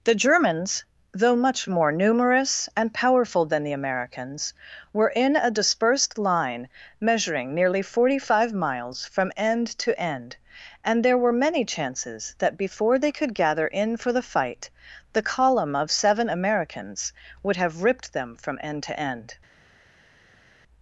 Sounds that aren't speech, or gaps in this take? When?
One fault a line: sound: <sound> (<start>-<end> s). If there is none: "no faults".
no faults